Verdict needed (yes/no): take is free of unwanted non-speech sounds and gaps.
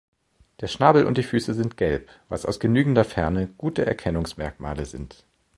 yes